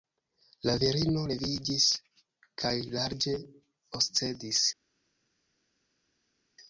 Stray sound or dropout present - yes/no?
no